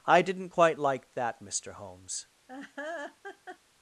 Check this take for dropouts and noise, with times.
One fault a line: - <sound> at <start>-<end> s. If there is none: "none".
- laugh at 2.5-3.6 s